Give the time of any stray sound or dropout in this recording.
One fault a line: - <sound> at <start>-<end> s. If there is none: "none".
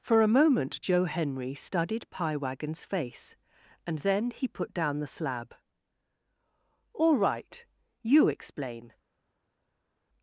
none